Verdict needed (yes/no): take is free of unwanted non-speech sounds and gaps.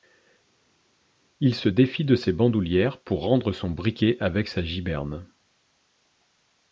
yes